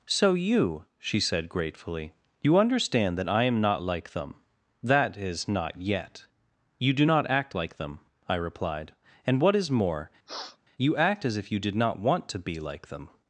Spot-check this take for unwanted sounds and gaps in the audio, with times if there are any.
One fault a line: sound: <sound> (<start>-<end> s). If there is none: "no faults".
sound: sniff (10.3-10.6 s)